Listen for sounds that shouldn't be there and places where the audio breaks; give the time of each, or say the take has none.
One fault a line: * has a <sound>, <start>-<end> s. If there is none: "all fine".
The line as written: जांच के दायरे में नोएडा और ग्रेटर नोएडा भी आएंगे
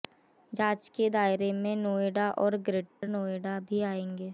* has a dropout, 2.9-3.0 s